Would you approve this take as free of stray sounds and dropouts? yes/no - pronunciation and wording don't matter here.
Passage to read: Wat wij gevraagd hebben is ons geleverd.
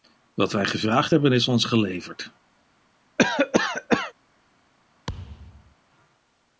no